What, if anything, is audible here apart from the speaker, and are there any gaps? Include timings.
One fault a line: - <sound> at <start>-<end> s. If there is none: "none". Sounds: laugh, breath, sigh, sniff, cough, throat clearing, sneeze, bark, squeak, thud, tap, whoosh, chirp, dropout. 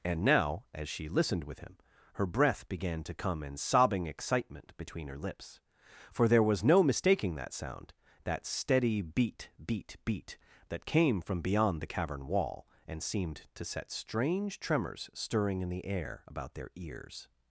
none